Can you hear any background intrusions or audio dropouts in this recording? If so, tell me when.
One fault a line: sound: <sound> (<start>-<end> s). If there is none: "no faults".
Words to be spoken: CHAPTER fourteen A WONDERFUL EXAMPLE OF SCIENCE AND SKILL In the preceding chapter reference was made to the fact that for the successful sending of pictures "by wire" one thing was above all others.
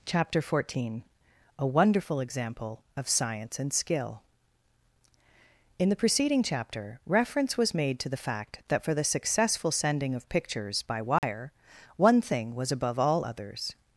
sound: dropout (11.2-11.2 s)